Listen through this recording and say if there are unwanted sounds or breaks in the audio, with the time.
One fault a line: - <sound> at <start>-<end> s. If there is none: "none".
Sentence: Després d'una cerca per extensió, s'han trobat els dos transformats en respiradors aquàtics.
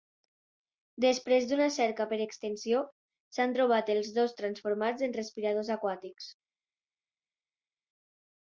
none